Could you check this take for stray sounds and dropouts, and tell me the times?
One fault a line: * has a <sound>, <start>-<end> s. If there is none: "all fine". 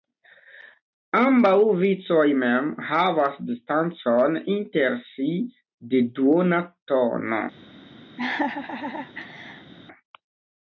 * has a laugh, 8.2-9.7 s